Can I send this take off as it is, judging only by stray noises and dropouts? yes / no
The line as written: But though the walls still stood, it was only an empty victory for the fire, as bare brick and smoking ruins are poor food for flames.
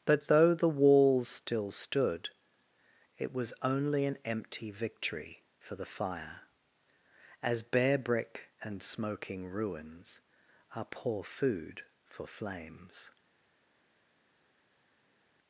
yes